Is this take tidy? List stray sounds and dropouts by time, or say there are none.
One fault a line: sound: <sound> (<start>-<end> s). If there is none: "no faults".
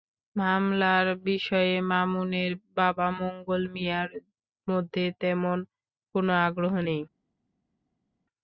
no faults